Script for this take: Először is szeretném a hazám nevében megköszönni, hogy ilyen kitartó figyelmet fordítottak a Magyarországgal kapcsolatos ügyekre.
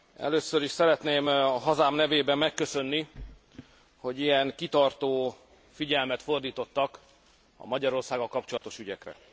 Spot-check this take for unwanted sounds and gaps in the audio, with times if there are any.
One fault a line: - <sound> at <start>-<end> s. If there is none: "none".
- dropout at 8.6-8.6 s